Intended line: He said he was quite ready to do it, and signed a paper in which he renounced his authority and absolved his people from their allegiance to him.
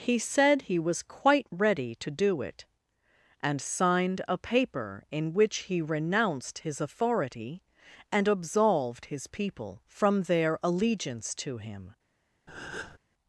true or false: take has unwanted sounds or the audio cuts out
true